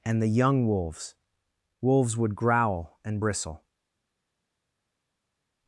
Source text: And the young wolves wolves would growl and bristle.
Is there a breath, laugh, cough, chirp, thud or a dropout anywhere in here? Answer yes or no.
no